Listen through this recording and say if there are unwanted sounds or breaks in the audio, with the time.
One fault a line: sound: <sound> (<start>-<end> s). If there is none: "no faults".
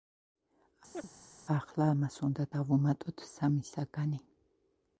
sound: chirp (0.9-1.1 s)